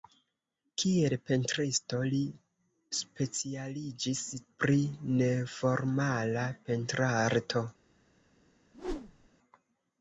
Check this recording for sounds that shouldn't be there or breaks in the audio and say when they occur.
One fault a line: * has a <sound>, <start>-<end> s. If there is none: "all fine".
* has a whoosh, 8.7-9.3 s